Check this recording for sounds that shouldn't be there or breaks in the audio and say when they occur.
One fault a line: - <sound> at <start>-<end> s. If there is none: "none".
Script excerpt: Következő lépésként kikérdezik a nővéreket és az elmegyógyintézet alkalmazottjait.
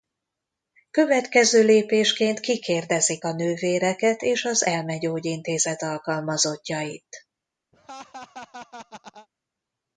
- laugh at 7.7-9.3 s